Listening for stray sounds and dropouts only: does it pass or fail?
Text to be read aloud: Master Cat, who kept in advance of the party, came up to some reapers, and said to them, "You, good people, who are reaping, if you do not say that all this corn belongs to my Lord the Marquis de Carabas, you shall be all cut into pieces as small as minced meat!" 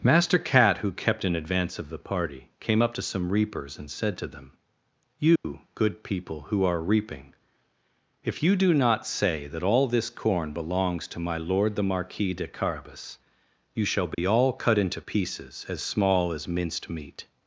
fail